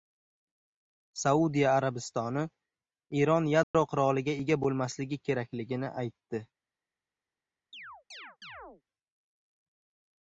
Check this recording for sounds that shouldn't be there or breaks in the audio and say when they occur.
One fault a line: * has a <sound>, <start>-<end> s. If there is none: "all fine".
* has a dropout, 3.6-3.7 s
* has a chirp, 7.7-8.8 s